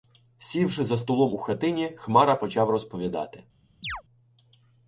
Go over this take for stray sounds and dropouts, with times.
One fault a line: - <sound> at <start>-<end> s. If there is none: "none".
- chirp at 3.8-4.0 s